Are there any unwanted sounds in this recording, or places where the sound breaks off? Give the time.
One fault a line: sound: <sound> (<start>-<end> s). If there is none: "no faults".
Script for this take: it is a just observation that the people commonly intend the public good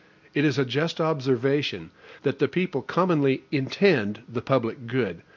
no faults